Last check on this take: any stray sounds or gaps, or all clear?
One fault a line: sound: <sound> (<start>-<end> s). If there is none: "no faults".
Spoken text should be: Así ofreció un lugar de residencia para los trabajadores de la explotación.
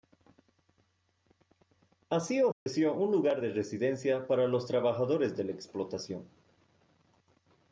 sound: dropout (2.5-2.7 s)